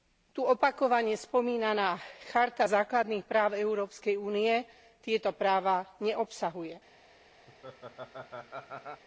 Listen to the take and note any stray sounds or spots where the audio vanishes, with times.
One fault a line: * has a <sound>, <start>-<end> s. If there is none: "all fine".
* has a laugh, 7.5-9.0 s